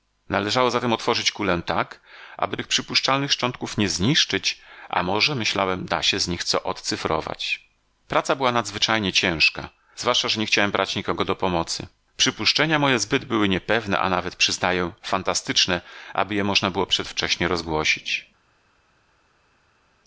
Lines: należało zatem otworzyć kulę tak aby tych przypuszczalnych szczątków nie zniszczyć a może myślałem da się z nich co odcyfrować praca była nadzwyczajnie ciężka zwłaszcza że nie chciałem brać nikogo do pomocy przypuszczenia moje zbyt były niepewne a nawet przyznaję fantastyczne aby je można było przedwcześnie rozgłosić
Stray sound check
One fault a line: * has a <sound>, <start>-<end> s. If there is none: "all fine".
all fine